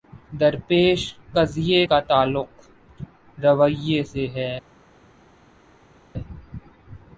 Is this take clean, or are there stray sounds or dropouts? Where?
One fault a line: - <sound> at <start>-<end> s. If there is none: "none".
none